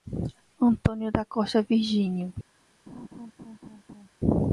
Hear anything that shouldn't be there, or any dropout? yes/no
yes